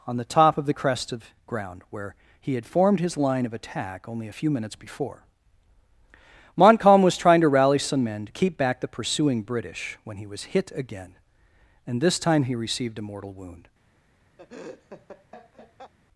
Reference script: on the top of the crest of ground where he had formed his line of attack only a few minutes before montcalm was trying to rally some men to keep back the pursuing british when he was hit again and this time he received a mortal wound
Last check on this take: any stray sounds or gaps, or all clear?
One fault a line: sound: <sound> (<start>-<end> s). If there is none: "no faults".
sound: laugh (14.4-15.9 s)